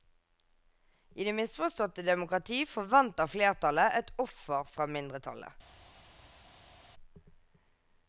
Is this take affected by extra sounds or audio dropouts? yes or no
no